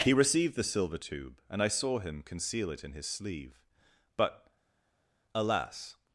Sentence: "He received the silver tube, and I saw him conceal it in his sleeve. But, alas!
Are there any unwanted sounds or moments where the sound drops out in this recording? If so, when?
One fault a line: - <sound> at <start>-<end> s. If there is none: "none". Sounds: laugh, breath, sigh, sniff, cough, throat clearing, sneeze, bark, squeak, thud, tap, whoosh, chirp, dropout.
none